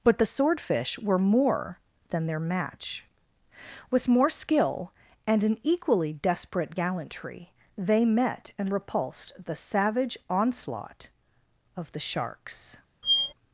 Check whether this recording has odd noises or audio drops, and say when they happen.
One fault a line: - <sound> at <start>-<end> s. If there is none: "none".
- squeak at 13.0-13.3 s